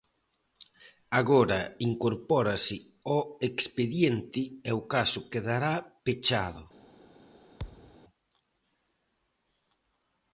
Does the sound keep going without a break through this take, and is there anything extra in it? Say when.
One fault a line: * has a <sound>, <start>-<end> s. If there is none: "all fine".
* has a thud, 7.6-8.0 s